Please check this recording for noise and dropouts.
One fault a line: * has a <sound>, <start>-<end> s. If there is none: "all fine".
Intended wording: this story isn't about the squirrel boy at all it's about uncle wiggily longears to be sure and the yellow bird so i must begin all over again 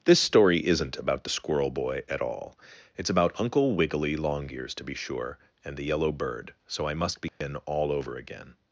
* has a dropout, 7.3-7.4 s